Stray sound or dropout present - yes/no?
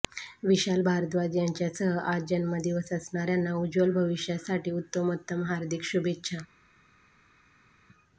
no